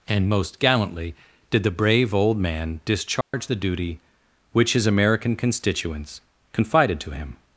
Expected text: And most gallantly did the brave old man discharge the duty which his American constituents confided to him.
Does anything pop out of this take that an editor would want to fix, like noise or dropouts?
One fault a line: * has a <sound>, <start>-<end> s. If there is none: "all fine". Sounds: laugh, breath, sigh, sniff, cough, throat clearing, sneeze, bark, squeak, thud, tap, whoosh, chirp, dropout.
* has a dropout, 3.2-3.3 s